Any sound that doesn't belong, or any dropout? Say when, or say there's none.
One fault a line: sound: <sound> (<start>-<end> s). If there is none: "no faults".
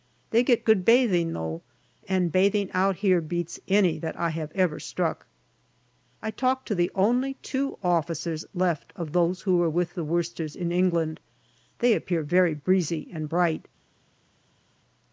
no faults